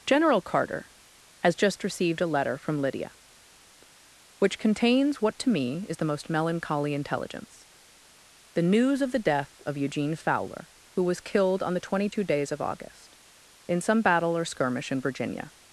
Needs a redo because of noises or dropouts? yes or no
no